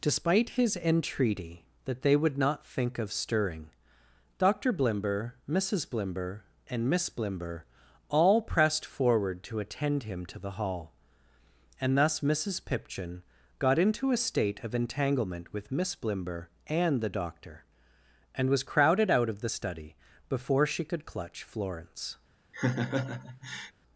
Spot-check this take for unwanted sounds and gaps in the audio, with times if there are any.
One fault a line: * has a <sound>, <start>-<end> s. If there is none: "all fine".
* has a laugh, 22.5-23.7 s